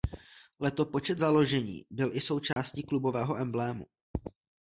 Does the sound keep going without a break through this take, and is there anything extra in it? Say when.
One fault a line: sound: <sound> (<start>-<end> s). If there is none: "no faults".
sound: dropout (2.5-2.6 s)